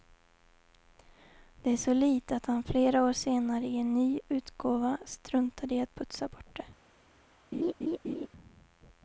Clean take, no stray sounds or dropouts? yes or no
no